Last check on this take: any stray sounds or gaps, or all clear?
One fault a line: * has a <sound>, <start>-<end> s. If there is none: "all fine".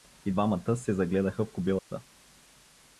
* has a dropout, 1.8-1.9 s